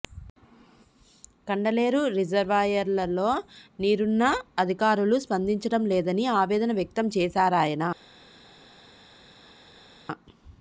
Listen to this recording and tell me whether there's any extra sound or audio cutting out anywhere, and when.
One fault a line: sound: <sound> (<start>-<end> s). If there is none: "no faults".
no faults